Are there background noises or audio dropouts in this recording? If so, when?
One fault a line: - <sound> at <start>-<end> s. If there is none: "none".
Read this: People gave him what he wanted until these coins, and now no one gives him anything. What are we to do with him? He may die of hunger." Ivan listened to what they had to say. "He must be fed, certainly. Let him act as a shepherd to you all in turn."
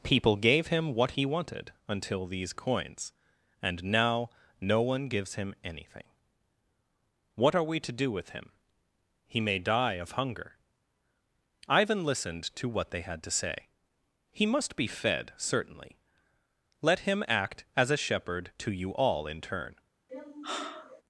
- sigh at 20.1-21.0 s